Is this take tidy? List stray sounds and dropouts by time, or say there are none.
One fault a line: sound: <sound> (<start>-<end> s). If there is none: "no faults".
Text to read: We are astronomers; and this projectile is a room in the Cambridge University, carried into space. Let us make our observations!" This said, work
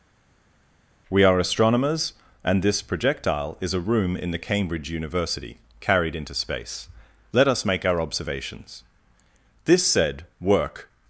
no faults